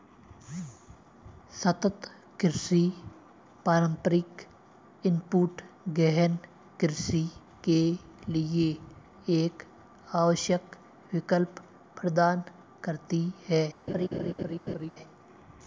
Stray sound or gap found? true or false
true